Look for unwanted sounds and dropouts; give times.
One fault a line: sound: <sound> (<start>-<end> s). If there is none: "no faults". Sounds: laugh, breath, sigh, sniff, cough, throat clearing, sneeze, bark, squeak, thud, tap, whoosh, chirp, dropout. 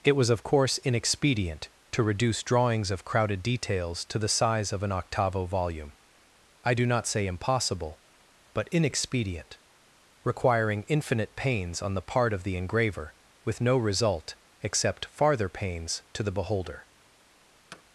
sound: thud (17.7-17.8 s)